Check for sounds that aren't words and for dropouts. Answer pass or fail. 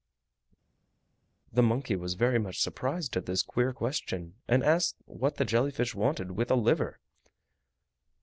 pass